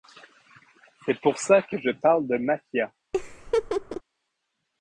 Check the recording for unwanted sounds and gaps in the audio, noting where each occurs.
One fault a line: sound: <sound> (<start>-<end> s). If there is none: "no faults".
sound: laugh (3.1-4.0 s)